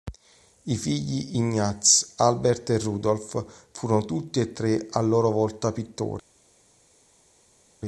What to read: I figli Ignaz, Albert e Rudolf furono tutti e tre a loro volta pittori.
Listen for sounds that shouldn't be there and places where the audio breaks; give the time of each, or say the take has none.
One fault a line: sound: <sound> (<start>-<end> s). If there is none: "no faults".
no faults